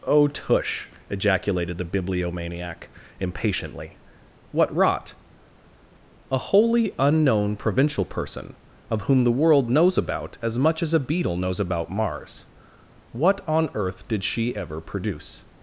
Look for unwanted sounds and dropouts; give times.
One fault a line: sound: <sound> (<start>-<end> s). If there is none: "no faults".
no faults